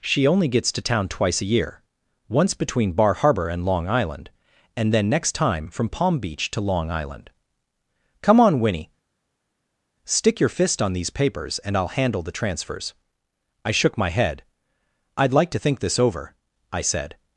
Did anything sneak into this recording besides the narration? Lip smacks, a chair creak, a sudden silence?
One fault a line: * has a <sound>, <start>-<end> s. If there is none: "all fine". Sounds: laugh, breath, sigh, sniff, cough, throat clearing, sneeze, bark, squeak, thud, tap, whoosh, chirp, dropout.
all fine